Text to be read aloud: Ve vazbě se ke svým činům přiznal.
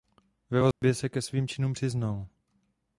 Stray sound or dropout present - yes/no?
yes